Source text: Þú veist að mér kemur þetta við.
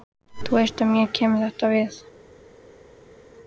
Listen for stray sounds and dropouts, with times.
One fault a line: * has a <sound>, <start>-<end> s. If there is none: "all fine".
all fine